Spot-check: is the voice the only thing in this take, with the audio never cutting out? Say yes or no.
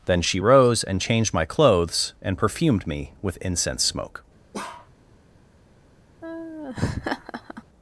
no